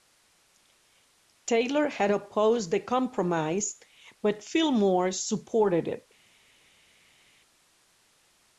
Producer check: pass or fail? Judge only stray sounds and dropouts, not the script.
pass